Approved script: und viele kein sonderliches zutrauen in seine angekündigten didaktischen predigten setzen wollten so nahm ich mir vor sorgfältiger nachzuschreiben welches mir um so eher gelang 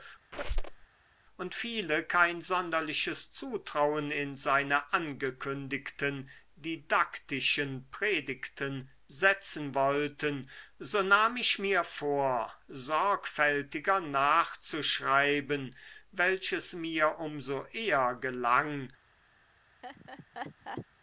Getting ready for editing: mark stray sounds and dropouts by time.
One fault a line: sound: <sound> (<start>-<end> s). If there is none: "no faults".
sound: squeak (0.3-0.9 s)
sound: laugh (19.8-20.9 s)